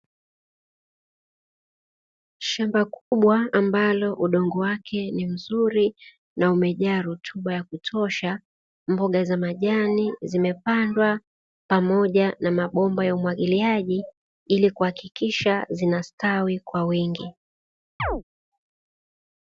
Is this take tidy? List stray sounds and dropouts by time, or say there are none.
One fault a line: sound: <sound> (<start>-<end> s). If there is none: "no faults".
sound: dropout (3.0-3.1 s)
sound: chirp (18.0-18.2 s)